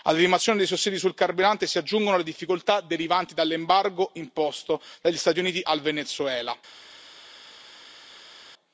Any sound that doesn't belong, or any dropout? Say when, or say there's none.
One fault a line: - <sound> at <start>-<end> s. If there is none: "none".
none